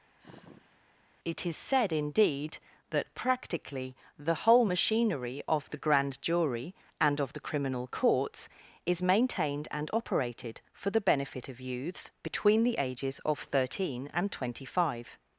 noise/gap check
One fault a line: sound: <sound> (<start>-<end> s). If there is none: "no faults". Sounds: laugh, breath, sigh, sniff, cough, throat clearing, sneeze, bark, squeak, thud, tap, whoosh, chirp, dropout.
sound: sigh (0.2-0.8 s)